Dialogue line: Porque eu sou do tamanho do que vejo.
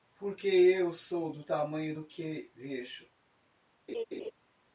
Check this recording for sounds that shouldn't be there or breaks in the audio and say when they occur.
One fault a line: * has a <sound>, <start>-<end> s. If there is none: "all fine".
* has a laugh, 3.9-4.3 s